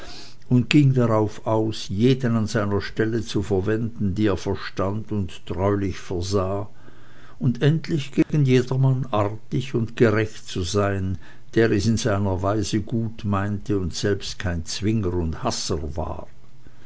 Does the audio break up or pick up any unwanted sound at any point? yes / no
yes